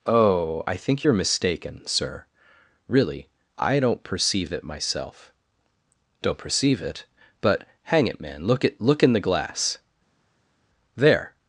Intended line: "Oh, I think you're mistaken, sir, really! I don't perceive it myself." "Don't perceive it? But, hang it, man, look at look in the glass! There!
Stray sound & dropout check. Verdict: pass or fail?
pass